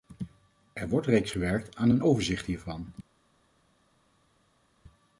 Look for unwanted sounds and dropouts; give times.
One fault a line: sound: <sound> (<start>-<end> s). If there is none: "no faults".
no faults